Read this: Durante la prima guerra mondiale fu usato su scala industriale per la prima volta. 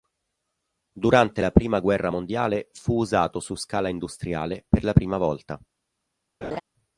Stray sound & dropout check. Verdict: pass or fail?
fail